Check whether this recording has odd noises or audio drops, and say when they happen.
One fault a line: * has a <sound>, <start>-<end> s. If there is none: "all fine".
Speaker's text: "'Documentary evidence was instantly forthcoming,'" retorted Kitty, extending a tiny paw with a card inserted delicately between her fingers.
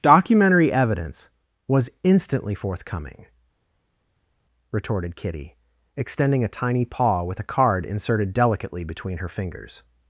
all fine